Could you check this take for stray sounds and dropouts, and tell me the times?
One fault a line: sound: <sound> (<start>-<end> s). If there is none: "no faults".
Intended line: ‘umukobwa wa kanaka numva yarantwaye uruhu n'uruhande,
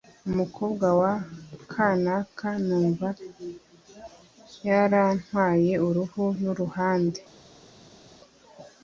no faults